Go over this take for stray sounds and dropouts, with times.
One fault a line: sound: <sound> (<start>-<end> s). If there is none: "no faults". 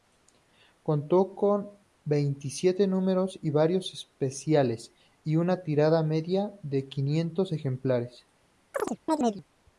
sound: chirp (8.7-9.4 s)